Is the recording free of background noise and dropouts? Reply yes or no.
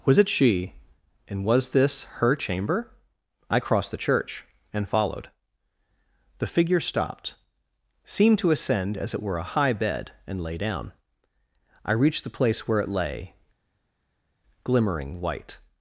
yes